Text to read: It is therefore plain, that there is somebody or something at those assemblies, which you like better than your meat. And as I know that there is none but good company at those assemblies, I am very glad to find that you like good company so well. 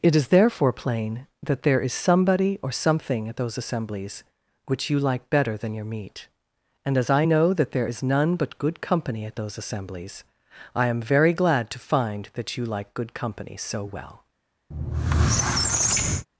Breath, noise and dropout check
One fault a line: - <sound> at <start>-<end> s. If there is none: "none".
- squeak at 14.7-16.3 s